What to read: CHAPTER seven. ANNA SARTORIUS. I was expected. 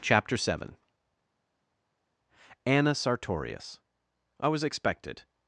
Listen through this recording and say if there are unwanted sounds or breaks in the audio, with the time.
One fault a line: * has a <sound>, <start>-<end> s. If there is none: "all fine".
all fine